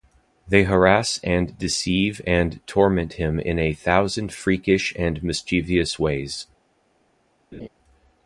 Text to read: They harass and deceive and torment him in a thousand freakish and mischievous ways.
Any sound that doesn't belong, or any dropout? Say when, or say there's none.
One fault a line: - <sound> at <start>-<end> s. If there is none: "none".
- laugh at 7.5-7.7 s